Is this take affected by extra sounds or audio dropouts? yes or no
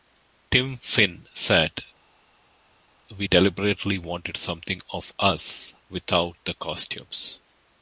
no